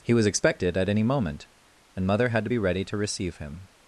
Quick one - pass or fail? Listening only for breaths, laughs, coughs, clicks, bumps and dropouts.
pass